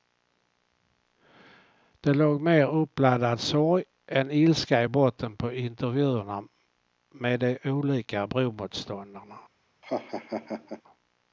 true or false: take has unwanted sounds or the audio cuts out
true